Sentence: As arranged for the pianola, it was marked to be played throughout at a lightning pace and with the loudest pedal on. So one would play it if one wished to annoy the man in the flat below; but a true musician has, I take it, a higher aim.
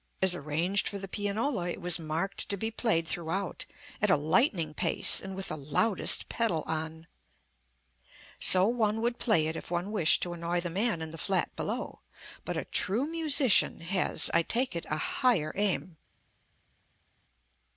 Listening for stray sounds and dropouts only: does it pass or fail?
pass